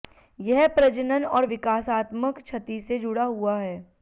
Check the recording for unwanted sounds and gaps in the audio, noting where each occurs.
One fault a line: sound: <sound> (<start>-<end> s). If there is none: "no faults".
no faults